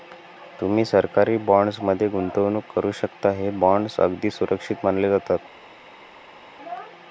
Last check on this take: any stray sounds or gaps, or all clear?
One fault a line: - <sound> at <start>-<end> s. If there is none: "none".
none